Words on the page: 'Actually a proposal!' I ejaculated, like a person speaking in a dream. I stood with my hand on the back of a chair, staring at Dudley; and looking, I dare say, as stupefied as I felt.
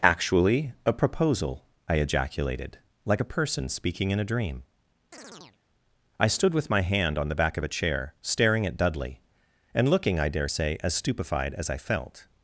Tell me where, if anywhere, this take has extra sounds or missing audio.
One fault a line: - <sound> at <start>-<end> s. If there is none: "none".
- chirp at 5.1-5.6 s